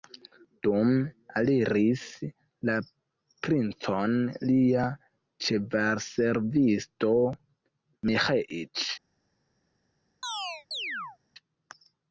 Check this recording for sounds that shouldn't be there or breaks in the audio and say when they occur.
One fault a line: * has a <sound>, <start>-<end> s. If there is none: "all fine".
* has a chirp, 10.2-11.2 s